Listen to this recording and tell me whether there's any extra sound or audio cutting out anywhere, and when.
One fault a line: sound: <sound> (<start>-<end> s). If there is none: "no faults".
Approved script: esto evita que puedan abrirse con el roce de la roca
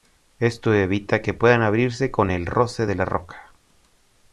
no faults